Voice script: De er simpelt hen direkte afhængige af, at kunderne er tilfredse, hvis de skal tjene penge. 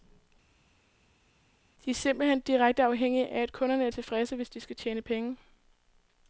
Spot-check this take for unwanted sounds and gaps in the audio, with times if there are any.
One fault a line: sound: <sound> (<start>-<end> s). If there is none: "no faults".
no faults